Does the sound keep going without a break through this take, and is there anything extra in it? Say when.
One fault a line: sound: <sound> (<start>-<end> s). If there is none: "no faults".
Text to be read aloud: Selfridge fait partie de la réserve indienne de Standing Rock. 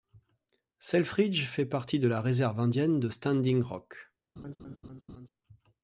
sound: laugh (4.4-5.3 s)